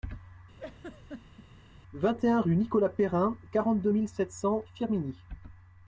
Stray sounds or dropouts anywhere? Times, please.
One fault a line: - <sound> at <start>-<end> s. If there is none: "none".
- laugh at 0.6-1.5 s